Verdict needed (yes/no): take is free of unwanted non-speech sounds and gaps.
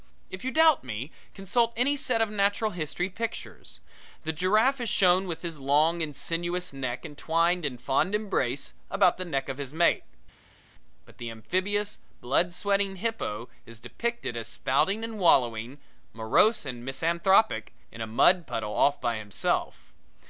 yes